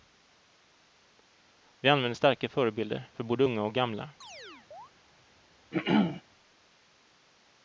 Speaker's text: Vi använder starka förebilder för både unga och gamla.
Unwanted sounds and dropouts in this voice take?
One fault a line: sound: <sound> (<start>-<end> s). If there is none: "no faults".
sound: chirp (4.2-4.9 s)
sound: throat clearing (5.7-6.2 s)